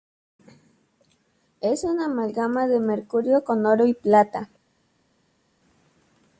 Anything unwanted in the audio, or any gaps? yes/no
no